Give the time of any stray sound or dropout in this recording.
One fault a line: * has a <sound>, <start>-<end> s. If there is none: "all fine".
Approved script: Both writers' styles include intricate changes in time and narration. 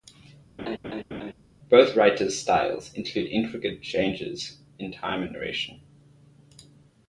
* has a laugh, 0.6-1.3 s